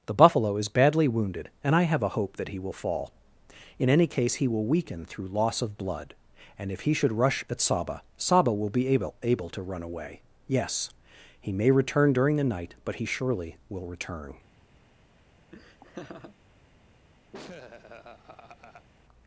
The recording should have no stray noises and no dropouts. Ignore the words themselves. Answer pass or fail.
fail